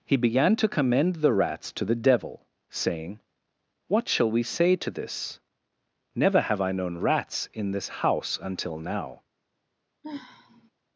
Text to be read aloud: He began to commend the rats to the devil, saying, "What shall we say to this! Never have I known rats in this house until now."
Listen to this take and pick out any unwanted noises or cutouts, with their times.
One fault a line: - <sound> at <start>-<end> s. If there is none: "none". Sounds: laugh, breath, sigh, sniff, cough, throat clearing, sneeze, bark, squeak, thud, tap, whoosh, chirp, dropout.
- sigh at 10.0-10.7 s